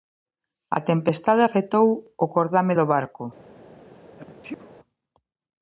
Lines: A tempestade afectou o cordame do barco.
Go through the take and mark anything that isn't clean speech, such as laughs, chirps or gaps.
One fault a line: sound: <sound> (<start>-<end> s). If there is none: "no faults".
sound: sneeze (4.2-4.7 s)